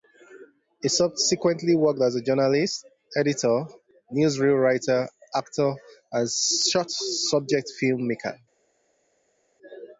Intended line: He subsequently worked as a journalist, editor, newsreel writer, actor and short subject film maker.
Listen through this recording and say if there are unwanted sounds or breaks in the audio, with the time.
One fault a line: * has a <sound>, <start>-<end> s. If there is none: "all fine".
all fine